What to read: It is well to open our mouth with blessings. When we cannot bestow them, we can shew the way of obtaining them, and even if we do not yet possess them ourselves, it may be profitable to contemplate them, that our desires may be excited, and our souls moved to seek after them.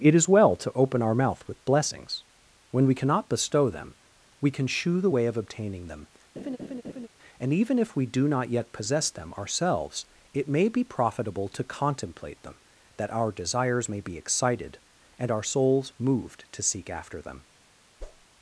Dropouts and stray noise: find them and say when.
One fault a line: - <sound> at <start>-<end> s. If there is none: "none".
- laugh at 6.4-7.1 s
- whoosh at 18.0-18.3 s